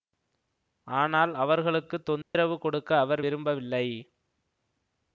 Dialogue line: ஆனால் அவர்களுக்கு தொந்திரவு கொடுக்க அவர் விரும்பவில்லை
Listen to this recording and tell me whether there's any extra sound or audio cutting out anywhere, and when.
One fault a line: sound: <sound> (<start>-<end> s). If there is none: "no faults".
sound: dropout (2.2-2.3 s)